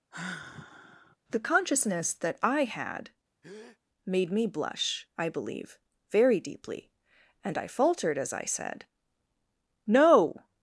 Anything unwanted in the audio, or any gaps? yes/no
yes